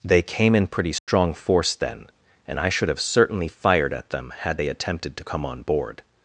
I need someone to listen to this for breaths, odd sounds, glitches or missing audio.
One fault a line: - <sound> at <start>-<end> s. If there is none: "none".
- dropout at 1.0-1.1 s